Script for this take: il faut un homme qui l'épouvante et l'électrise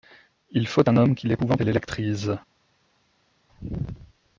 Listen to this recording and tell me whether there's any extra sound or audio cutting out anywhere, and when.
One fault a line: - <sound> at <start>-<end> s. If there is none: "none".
none